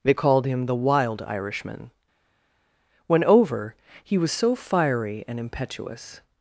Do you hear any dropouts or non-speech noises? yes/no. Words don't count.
no